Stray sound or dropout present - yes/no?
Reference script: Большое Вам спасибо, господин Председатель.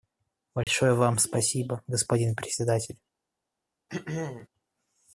yes